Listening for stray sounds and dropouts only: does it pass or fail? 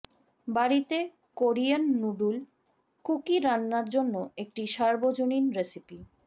pass